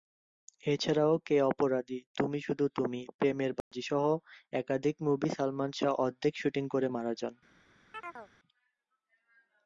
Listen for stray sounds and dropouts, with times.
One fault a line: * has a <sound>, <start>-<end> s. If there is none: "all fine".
* has a dropout, 3.6-3.7 s
* has a chirp, 7.9-8.3 s